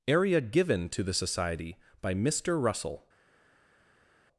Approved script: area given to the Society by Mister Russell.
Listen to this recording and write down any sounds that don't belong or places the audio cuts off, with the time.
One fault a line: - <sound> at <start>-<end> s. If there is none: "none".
none